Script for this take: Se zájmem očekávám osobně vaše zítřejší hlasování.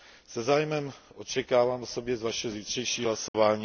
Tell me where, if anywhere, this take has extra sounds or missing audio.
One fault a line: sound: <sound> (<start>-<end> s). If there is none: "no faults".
sound: dropout (3.3-3.3 s)